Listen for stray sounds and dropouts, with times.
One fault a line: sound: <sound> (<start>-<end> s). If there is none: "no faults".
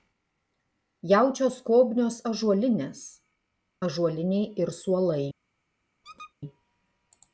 sound: squeak (6.0-6.3 s)